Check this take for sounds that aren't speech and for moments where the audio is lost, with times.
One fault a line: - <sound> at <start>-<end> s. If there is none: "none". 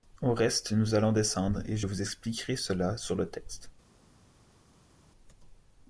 none